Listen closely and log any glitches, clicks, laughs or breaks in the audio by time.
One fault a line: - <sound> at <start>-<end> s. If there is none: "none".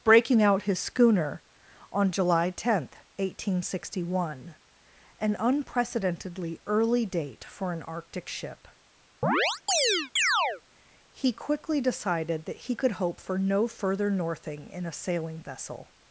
- chirp at 9.2-10.6 s